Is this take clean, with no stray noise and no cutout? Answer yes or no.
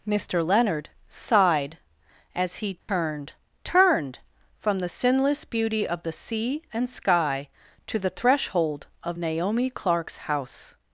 no